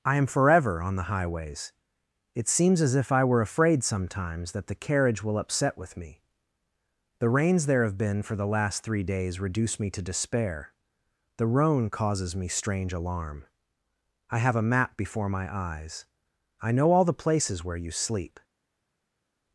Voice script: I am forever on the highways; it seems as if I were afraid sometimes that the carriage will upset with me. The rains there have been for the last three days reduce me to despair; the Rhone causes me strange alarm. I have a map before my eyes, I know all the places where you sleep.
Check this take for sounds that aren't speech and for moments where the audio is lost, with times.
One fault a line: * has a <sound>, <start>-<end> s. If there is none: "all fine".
all fine